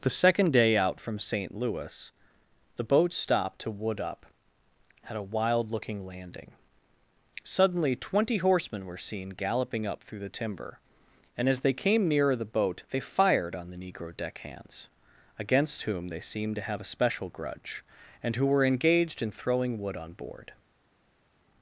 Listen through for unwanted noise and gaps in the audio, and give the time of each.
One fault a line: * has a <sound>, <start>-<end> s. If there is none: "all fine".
all fine